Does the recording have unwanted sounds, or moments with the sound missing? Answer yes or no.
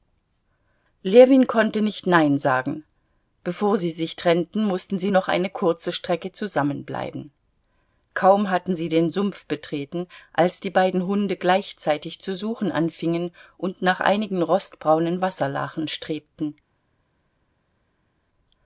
no